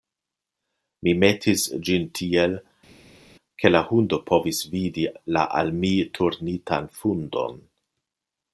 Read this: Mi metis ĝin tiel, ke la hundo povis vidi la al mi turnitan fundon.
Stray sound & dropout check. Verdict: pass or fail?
pass